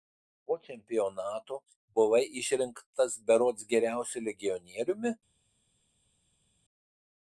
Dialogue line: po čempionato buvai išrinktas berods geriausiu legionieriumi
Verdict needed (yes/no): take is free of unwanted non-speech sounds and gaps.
yes